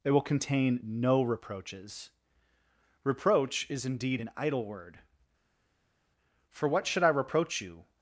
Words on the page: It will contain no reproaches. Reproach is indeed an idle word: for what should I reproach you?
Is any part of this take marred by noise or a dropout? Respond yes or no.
no